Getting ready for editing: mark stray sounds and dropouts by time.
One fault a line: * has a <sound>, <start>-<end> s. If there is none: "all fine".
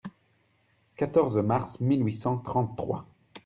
all fine